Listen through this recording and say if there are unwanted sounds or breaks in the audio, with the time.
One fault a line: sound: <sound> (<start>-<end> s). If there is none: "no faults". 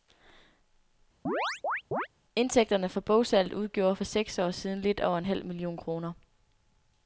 sound: chirp (1.3-2.1 s)